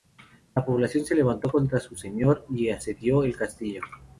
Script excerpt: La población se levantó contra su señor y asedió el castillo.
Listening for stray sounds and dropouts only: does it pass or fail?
pass